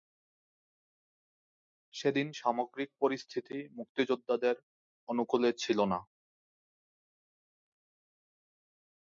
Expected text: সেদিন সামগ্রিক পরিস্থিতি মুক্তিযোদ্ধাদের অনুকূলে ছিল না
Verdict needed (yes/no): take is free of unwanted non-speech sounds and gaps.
yes